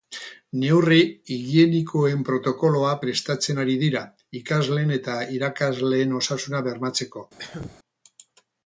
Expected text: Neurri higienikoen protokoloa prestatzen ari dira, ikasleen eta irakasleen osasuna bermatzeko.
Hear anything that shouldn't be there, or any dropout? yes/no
yes